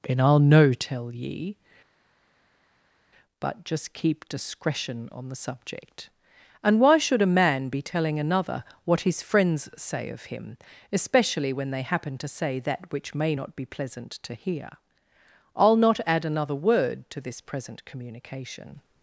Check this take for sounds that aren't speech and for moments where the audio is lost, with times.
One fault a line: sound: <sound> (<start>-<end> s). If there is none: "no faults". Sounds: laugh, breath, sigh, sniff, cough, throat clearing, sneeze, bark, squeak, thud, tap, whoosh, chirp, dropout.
no faults